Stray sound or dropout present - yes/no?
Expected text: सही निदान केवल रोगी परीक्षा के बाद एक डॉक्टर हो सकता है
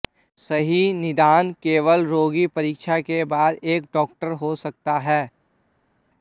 no